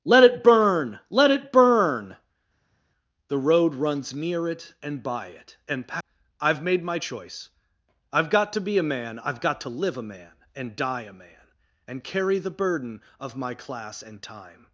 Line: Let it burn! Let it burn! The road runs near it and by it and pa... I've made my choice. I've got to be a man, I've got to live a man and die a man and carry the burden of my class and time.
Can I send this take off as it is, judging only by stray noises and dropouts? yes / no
yes